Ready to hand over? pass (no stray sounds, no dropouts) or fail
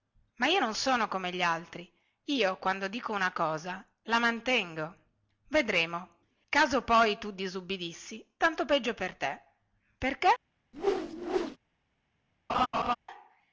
fail